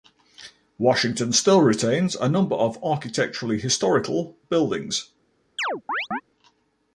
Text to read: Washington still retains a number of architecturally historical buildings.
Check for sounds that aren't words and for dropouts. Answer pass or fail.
fail